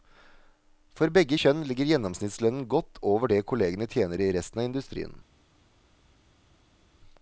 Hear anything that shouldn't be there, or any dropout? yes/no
no